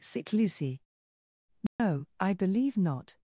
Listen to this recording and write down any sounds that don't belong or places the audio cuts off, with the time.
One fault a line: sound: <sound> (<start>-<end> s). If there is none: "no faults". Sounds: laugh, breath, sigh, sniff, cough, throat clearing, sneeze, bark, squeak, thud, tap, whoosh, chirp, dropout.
sound: dropout (1.7-1.8 s)